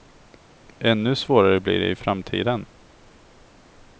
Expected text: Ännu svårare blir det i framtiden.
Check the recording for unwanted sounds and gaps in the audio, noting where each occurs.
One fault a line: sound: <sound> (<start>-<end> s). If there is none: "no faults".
no faults